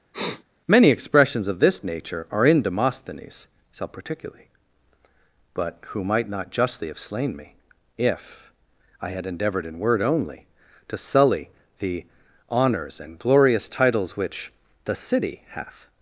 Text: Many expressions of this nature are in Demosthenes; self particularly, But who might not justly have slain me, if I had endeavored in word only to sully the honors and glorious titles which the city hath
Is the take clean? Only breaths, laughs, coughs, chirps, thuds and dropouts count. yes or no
no